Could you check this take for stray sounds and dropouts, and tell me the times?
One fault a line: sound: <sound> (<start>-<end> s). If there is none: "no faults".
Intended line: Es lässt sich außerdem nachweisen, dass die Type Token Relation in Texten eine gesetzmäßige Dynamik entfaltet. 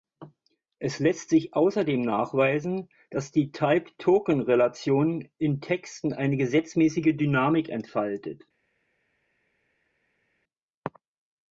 no faults